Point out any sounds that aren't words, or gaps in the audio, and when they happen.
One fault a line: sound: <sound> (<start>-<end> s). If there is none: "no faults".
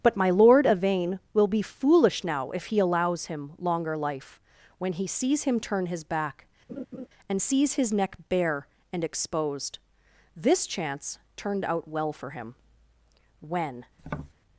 sound: laugh (6.7-7.1 s)
sound: tap (14.0-14.3 s)